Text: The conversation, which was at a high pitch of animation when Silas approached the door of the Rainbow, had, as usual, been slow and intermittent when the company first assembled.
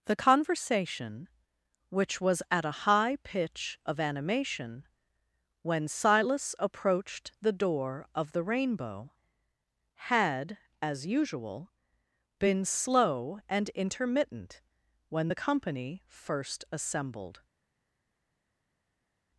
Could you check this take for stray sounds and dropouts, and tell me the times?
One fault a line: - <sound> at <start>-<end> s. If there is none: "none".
none